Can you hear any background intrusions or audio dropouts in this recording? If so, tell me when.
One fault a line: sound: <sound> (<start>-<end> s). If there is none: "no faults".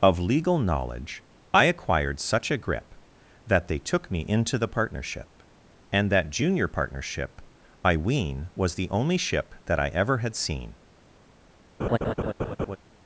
sound: laugh (11.8-12.8 s)